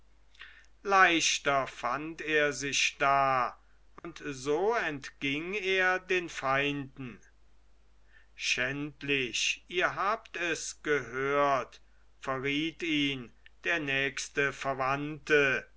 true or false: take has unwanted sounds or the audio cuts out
true